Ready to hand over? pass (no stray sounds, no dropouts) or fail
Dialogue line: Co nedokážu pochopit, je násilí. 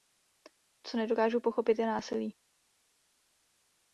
pass